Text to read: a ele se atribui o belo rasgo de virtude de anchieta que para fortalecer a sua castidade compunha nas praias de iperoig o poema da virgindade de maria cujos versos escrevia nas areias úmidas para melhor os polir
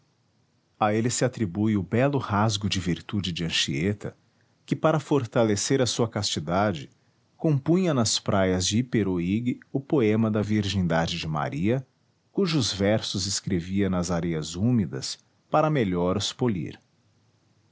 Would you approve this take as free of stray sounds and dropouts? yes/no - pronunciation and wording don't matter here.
yes